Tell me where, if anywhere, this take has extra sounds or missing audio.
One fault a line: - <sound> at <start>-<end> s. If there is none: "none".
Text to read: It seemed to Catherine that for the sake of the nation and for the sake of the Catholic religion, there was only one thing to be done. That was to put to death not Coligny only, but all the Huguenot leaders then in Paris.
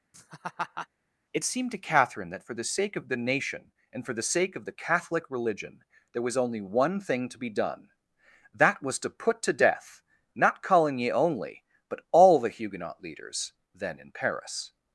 - laugh at 0.1-0.9 s